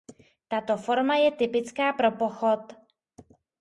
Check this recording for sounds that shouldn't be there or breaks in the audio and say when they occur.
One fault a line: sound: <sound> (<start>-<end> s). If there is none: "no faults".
no faults